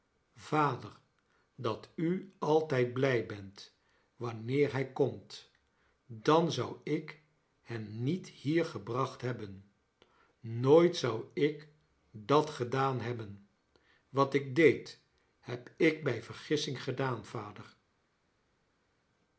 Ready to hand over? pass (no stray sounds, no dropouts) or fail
pass